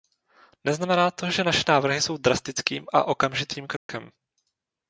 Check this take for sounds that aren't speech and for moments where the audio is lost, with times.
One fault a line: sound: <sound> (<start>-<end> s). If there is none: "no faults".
sound: dropout (3.8-3.9 s)